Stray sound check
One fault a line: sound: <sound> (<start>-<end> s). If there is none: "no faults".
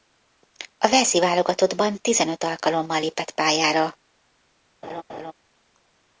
sound: laugh (4.8-5.3 s)